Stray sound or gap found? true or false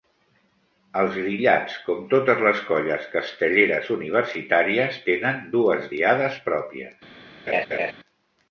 true